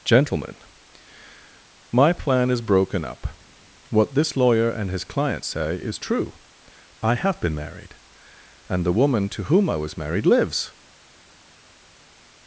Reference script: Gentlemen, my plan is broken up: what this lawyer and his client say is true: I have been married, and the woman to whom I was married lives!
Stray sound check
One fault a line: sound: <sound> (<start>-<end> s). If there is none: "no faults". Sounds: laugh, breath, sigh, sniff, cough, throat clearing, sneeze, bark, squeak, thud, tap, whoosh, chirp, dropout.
no faults